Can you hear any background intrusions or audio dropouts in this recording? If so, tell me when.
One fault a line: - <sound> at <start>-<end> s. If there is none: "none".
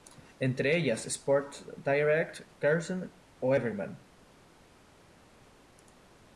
none